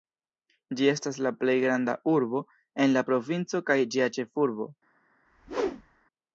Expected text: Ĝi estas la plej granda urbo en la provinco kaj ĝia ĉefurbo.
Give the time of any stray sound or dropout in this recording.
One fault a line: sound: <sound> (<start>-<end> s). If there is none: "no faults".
sound: whoosh (5.3-6.1 s)